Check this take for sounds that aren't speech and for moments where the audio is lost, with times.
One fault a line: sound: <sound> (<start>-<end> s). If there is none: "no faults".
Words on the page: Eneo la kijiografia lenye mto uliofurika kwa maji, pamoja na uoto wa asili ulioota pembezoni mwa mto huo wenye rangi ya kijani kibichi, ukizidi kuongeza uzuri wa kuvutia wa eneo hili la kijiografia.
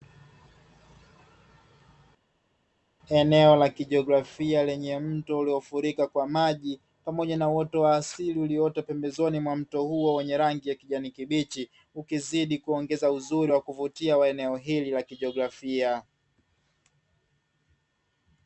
no faults